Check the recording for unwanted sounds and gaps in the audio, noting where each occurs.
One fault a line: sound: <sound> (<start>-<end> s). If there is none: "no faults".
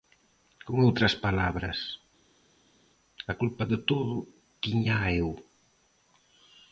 no faults